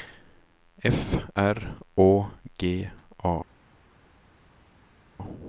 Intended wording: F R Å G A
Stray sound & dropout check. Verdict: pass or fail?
pass